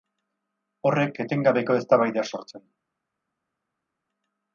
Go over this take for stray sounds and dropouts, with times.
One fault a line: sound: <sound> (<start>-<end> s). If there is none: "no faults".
no faults